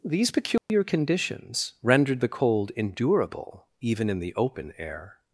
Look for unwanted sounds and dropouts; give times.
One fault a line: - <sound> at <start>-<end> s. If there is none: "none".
- dropout at 0.6-0.7 s